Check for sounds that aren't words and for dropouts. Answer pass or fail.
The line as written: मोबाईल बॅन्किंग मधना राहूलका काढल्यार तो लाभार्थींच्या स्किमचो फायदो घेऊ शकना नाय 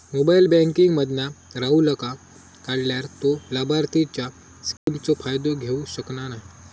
fail